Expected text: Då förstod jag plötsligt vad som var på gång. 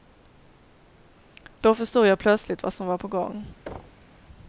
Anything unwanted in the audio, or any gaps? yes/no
yes